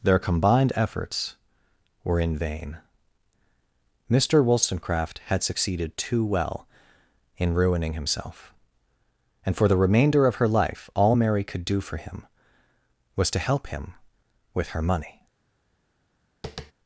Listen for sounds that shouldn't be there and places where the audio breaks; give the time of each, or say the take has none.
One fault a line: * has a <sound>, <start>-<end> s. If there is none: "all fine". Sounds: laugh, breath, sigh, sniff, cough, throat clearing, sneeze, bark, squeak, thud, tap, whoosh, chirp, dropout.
* has a tap, 16.4-16.7 s